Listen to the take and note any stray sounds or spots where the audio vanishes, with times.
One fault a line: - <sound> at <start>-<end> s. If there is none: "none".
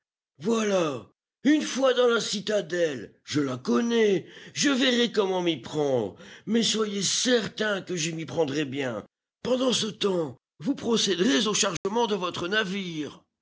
- dropout at 11.8-11.8 s